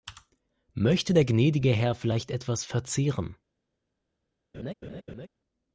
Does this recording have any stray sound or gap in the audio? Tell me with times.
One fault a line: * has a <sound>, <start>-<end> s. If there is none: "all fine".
* has a laugh, 4.5-5.3 s